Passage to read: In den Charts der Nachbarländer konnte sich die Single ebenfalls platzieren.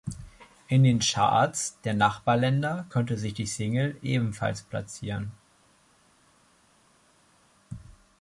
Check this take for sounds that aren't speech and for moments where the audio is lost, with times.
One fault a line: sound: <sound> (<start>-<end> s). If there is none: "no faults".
no faults